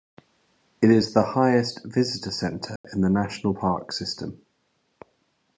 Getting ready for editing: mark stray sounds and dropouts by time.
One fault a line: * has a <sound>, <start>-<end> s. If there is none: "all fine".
* has a dropout, 2.8-2.8 s